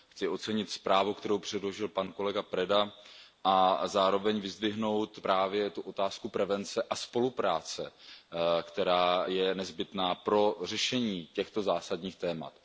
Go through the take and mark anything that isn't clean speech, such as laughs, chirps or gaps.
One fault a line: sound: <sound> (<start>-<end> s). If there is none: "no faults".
no faults